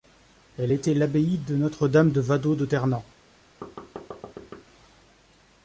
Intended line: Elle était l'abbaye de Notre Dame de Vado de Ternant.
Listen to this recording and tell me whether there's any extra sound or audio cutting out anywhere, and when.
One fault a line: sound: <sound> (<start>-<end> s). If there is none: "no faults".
sound: thud (3.6-4.7 s)